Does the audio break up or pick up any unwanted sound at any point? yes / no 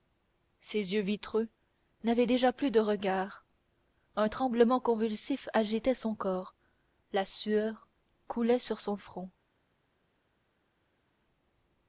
no